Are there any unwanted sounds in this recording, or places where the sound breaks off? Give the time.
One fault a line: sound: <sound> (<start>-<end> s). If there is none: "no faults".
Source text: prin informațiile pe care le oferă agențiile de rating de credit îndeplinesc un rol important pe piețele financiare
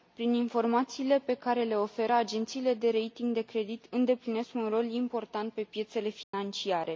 sound: dropout (6.2-6.3 s)